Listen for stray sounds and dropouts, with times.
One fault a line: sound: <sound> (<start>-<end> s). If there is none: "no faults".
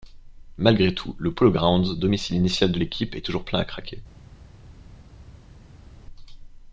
no faults